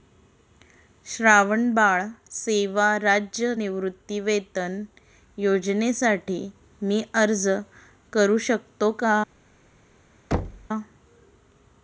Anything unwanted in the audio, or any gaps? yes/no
yes